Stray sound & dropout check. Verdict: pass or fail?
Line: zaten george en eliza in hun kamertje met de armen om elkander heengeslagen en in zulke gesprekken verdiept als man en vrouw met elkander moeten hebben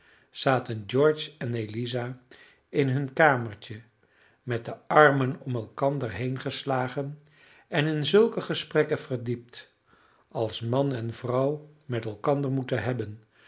pass